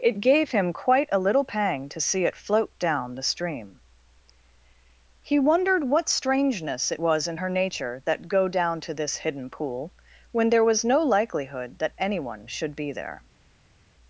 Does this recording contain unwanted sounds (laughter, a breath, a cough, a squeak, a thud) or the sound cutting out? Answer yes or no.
no